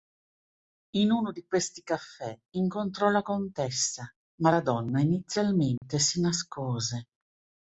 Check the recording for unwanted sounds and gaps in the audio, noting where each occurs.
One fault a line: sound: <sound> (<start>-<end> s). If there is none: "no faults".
sound: dropout (5.8-5.8 s)